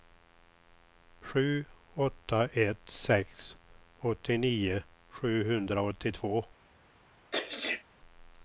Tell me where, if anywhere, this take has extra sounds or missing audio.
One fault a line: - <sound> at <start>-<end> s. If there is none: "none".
- sneeze at 7.3-7.8 s